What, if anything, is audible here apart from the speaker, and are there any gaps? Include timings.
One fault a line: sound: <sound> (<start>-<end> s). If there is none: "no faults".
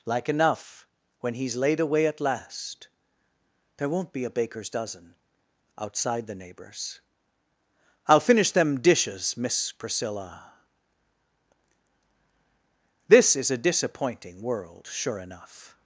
no faults